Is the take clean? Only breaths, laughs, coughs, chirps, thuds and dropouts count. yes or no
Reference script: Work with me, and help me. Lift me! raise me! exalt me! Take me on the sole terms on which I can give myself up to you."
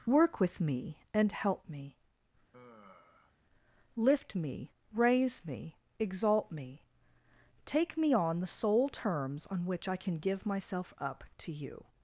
no